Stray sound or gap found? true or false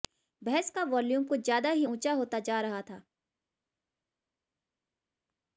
false